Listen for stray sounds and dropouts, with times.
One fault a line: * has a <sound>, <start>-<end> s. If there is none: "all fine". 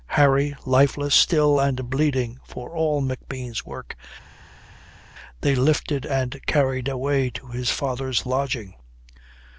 all fine